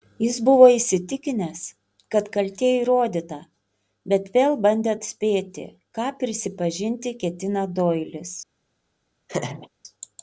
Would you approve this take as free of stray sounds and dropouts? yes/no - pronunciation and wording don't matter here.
no